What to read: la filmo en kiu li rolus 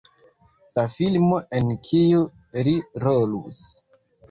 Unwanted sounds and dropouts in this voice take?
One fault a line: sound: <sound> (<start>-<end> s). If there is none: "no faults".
no faults